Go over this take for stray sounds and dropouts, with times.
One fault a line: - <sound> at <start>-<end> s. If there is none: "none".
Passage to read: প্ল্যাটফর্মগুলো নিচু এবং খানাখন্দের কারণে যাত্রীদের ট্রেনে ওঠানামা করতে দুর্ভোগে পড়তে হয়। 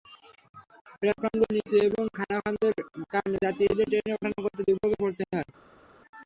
none